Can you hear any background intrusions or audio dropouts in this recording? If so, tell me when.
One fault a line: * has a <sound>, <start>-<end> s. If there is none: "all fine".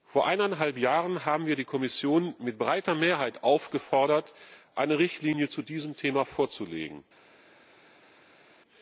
all fine